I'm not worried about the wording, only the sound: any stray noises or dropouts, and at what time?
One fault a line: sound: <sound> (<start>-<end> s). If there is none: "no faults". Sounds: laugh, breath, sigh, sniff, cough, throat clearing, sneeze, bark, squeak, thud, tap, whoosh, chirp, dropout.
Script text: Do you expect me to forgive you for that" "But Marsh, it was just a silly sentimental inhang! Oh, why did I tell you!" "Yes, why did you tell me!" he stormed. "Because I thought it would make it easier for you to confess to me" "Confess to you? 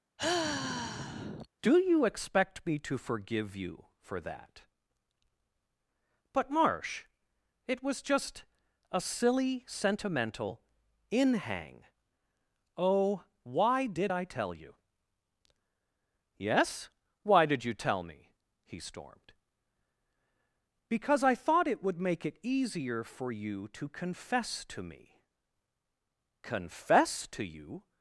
sound: sigh (0.2-1.5 s)